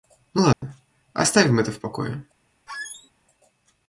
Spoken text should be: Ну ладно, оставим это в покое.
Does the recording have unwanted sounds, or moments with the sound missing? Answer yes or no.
yes